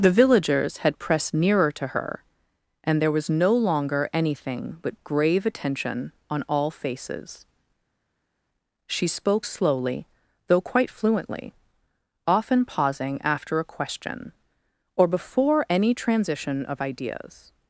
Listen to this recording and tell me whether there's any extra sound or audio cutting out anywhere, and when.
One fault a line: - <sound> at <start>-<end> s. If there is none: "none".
none